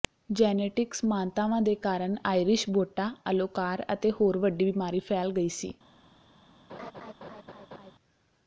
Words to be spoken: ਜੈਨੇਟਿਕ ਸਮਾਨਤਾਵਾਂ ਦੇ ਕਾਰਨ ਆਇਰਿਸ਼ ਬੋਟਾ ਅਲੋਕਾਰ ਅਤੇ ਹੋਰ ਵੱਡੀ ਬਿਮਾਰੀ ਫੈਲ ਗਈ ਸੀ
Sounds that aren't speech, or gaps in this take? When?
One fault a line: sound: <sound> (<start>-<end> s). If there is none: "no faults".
sound: laugh (6.7-7.9 s)